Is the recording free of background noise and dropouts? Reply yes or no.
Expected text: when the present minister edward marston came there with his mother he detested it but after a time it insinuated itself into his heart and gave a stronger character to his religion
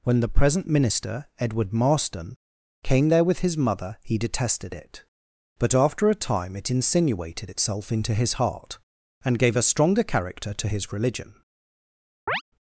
no